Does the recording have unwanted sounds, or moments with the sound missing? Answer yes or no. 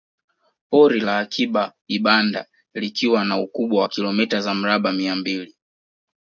no